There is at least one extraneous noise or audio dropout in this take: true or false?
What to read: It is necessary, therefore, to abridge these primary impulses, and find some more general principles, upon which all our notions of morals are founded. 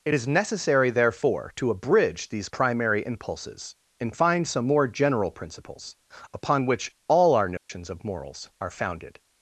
true